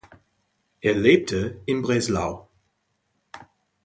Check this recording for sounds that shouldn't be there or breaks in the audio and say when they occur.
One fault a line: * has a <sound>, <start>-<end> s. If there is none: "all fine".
all fine